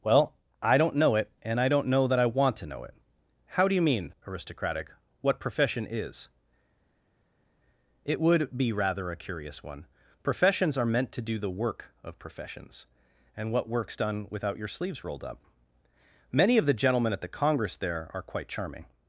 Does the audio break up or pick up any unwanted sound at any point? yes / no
no